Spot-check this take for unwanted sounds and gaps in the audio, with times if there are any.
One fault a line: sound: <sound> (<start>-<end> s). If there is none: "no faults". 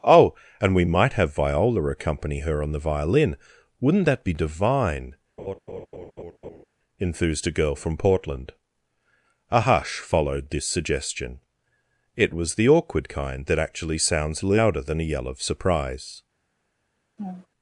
sound: laugh (5.4-6.6 s)
sound: laugh (17.2-17.5 s)